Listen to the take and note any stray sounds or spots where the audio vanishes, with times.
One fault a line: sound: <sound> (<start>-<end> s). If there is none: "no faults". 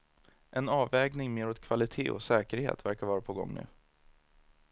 no faults